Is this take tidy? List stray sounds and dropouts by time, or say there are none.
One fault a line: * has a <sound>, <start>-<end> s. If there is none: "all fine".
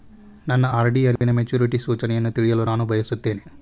* has a dropout, 1.2-1.2 s